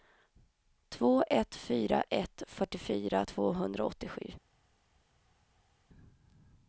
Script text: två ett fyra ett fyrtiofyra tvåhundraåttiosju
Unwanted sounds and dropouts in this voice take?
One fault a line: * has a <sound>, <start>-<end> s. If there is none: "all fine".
all fine